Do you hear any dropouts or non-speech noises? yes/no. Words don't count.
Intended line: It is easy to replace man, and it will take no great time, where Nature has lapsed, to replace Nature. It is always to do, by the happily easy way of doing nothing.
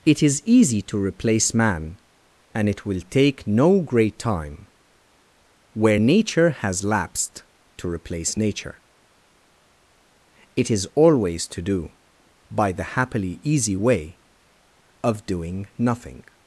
no